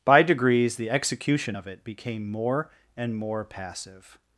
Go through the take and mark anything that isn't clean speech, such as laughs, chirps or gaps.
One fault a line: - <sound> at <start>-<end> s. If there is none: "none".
none